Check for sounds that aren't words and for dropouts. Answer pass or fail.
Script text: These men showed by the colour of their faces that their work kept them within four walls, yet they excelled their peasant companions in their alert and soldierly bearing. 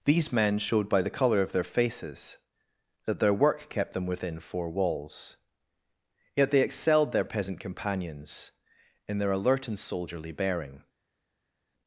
pass